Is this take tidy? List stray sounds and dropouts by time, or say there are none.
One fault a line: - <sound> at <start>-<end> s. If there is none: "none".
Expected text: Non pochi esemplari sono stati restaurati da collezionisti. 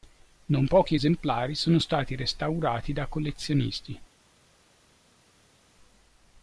none